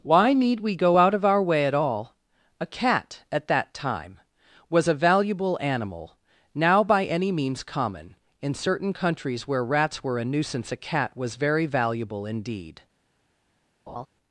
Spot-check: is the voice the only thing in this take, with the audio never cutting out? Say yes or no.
no